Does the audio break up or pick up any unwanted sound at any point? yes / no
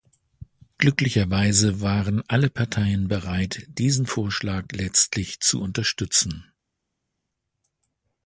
no